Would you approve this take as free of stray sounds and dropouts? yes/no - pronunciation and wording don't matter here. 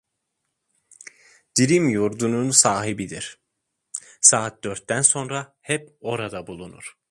yes